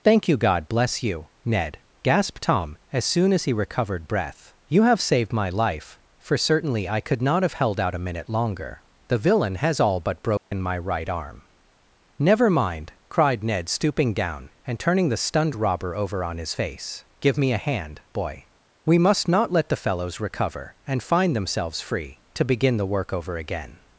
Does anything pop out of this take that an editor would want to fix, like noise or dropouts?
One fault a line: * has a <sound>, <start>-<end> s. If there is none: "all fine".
* has a dropout, 10.4-10.5 s